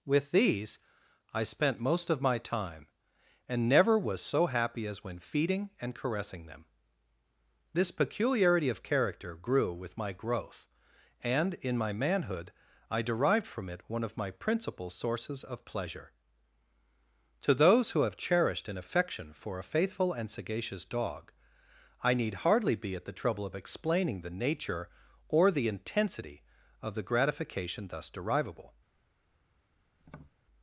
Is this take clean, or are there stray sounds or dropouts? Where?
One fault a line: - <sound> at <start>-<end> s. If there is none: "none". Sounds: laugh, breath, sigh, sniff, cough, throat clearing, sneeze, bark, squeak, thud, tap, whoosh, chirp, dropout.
- tap at 30.0-30.3 s